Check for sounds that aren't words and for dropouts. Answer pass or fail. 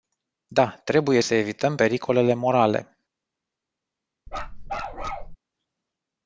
fail